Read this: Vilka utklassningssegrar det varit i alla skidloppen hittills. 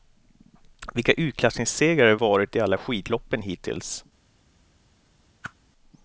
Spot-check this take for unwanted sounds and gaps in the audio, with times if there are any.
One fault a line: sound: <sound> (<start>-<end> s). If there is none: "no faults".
sound: whoosh (5.4-5.5 s)